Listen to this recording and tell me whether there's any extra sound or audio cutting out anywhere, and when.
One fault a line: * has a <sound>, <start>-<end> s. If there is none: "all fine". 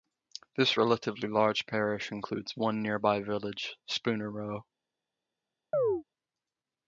* has a chirp, 5.7-6.0 s